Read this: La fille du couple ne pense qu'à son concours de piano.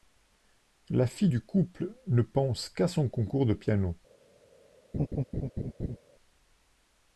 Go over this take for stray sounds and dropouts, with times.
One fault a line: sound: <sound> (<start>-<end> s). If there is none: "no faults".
sound: laugh (4.9-6.0 s)